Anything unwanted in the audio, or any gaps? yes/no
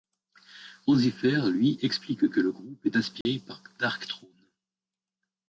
yes